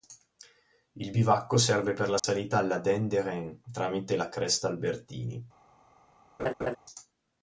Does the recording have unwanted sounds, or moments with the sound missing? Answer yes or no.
yes